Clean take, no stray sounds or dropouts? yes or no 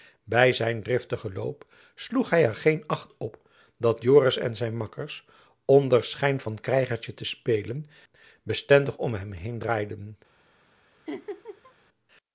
no